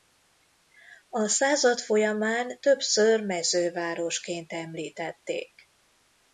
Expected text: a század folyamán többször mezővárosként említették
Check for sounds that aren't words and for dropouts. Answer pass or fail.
pass